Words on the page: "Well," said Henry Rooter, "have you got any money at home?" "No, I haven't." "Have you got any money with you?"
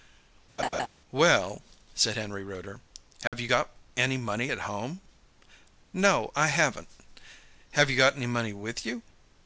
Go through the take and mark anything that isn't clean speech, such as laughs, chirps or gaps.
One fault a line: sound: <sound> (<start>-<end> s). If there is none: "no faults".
sound: laugh (0.6-0.9 s)
sound: dropout (3.3-3.3 s)